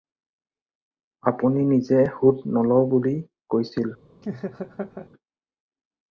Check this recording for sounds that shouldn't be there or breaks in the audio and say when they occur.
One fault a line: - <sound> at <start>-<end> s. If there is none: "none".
- laugh at 4.2-5.1 s